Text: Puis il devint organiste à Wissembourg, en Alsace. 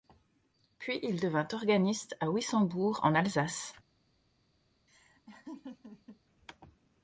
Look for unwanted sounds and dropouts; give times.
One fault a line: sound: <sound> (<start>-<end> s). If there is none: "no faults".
sound: laugh (4.9-6.2 s)